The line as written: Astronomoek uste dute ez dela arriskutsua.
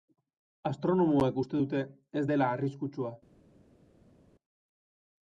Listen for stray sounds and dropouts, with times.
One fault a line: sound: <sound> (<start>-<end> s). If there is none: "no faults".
no faults